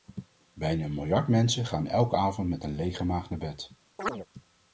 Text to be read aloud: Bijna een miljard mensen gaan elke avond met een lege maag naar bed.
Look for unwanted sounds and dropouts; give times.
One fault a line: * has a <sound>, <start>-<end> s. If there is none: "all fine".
* has a chirp, 4.0-4.3 s